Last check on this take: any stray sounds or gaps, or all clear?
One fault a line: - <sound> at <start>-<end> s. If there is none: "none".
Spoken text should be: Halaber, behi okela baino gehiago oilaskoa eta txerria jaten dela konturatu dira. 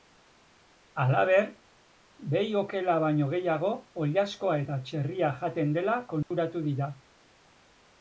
- dropout at 6.2-6.3 s